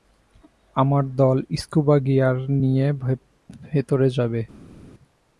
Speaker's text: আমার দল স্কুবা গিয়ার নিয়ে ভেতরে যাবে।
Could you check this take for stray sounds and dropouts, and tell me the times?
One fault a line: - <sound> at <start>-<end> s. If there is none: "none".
none